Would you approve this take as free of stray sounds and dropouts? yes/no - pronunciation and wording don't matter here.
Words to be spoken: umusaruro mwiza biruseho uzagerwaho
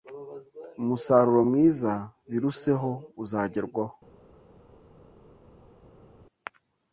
yes